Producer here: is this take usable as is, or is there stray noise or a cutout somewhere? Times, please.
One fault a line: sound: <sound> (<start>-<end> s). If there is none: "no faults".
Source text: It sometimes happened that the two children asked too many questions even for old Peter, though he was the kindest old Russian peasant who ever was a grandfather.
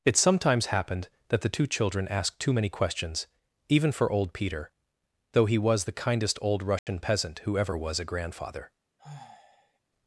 sound: dropout (6.8-6.9 s)
sound: sigh (9.0-9.8 s)